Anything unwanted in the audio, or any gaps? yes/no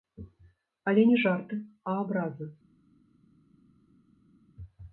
no